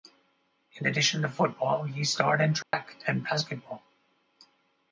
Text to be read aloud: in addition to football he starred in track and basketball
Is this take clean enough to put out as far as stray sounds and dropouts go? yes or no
no